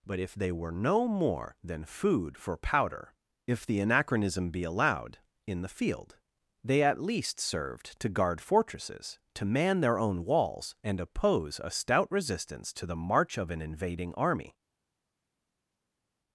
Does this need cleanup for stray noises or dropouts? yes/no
no